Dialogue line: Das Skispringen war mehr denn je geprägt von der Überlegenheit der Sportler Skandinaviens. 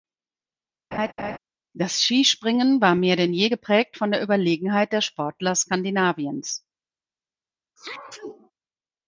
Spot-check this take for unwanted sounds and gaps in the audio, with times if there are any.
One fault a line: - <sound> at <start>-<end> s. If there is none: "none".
- laugh at 0.9-1.4 s
- sneeze at 7.8-8.5 s